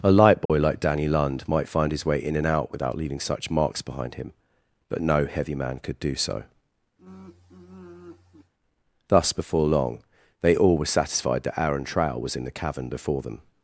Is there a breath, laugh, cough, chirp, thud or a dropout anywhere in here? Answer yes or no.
yes